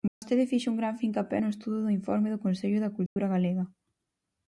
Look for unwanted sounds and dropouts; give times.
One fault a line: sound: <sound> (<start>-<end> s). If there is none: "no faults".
sound: dropout (0.1-0.2 s)
sound: dropout (3.1-3.2 s)